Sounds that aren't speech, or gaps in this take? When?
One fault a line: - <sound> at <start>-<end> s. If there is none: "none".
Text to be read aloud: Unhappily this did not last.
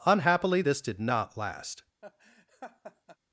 - laugh at 2.0-3.2 s